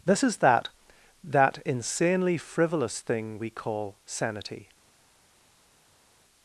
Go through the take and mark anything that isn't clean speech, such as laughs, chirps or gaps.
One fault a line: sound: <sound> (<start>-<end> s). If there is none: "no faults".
no faults